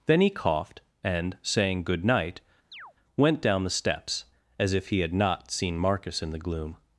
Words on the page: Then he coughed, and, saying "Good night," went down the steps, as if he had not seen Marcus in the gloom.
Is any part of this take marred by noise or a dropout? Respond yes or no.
yes